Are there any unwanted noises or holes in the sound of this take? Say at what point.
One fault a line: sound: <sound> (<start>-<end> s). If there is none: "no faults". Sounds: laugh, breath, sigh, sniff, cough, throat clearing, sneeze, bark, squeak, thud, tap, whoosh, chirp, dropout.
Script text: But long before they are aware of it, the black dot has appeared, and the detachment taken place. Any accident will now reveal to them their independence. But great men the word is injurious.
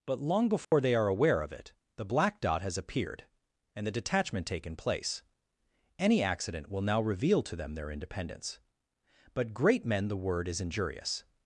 sound: dropout (0.6-0.7 s)